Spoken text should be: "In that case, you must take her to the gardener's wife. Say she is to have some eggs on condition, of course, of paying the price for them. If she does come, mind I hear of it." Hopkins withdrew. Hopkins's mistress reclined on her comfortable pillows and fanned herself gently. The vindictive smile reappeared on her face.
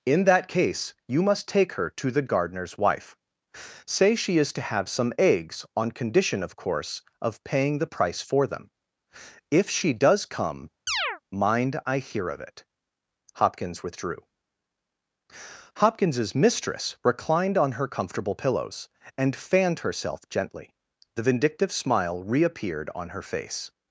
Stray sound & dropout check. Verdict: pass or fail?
fail